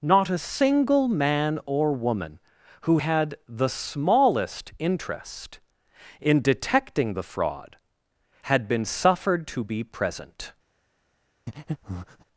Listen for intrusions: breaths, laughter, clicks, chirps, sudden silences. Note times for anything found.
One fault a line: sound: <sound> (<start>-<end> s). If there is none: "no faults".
sound: breath (11.5-12.2 s)